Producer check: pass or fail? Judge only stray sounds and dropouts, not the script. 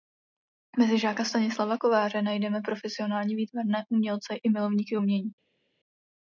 pass